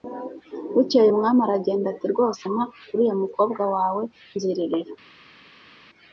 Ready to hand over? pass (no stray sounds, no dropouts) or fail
pass